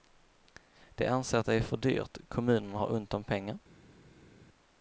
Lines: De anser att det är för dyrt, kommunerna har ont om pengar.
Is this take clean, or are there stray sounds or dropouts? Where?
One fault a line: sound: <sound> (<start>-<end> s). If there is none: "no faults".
no faults